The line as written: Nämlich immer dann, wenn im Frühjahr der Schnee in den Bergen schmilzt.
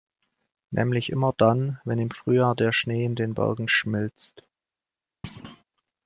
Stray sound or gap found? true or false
true